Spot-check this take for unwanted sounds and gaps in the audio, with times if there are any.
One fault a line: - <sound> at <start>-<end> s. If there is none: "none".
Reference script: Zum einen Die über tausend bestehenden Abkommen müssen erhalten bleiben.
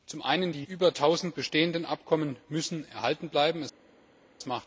none